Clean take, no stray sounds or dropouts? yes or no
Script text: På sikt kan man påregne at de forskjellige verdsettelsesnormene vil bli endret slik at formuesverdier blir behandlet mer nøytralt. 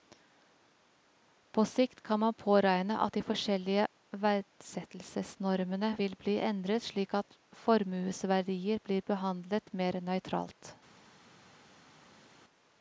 yes